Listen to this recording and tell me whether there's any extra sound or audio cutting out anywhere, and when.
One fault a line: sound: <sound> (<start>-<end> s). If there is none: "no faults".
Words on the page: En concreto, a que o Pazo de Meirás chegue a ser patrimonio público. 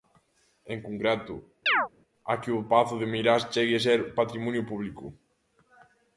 sound: chirp (1.7-1.9 s)